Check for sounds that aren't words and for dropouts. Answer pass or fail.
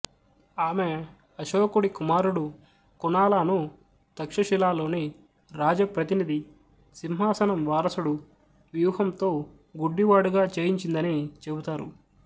pass